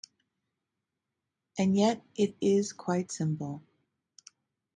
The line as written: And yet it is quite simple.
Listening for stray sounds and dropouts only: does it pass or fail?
pass